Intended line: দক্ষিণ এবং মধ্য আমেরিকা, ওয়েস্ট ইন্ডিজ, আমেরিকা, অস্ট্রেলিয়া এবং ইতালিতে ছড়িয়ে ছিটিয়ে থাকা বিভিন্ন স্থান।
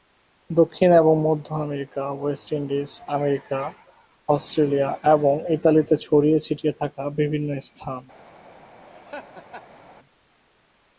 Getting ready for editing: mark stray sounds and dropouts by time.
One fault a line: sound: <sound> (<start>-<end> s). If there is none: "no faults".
sound: laugh (8.9-9.8 s)